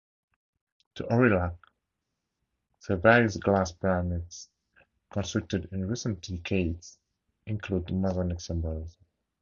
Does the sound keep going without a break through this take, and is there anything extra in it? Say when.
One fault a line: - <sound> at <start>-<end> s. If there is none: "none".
none